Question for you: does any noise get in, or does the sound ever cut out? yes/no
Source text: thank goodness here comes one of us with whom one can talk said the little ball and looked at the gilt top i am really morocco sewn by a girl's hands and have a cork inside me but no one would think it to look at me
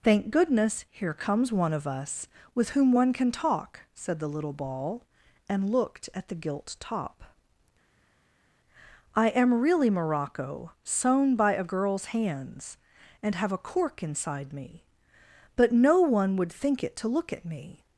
no